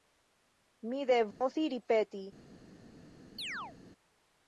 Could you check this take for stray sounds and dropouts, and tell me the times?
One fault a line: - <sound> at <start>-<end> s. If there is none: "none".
- dropout at 1.3-1.4 s
- chirp at 3.4-3.8 s